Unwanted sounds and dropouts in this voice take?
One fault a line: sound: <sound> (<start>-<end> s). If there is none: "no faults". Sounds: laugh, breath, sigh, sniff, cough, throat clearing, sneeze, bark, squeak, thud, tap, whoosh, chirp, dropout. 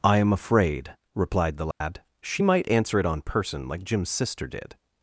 sound: dropout (1.7-1.8 s)